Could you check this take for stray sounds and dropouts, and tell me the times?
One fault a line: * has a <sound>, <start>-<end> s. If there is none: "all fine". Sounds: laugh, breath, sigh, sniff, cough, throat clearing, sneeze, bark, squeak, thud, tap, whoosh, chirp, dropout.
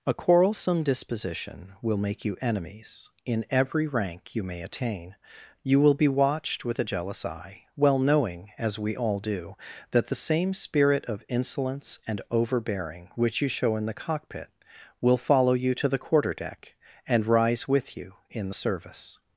all fine